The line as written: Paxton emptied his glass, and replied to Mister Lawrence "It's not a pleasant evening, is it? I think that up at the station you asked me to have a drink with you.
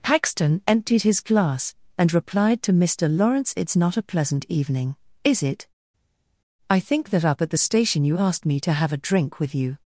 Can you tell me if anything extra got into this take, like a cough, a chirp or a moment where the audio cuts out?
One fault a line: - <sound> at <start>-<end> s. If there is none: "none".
none